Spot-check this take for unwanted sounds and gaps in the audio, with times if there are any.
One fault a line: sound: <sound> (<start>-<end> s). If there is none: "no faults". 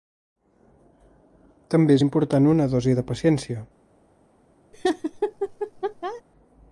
sound: laugh (4.7-6.2 s)